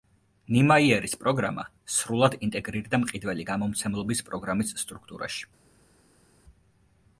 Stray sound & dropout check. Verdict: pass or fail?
pass